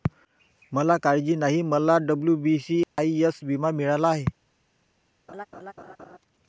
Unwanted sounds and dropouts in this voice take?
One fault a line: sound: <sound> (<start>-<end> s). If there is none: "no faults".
sound: dropout (2.8-3.0 s)
sound: laugh (5.3-6.2 s)